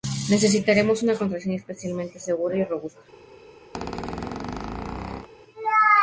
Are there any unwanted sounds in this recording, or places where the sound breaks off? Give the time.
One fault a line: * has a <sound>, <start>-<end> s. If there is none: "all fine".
* has a squeak, 3.7-5.3 s